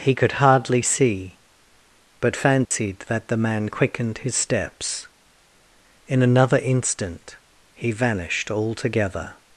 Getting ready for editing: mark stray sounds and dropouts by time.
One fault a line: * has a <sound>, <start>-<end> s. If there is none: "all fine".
* has a dropout, 2.7-2.7 s